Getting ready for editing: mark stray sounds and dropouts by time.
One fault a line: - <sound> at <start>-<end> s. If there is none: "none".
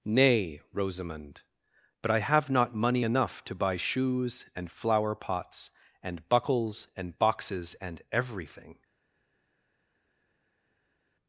none